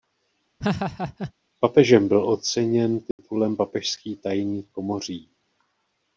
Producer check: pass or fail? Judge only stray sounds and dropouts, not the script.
fail